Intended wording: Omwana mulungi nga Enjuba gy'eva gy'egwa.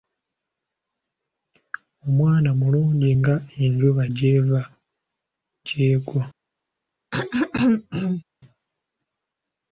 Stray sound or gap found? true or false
true